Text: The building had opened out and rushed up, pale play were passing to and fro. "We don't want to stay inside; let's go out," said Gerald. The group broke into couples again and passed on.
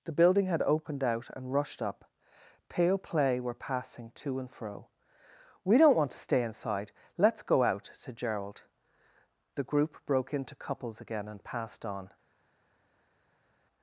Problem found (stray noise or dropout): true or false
false